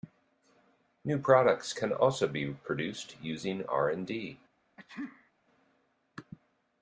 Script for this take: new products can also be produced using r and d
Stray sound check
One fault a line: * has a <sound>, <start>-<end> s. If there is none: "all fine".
* has a sneeze, 4.8-5.3 s